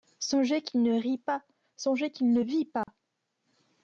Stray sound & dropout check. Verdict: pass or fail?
fail